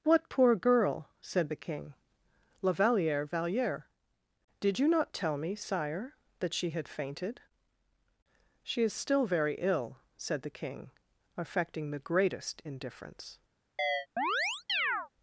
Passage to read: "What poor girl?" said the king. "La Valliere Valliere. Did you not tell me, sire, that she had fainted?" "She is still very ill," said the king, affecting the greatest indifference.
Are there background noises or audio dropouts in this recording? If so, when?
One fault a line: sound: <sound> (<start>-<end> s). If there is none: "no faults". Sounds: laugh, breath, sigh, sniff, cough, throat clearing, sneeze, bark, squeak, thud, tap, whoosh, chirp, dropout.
sound: chirp (13.8-15.1 s)